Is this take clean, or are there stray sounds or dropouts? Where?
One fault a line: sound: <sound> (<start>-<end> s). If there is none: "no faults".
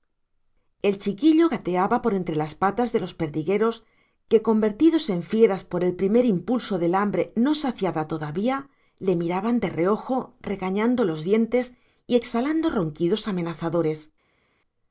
no faults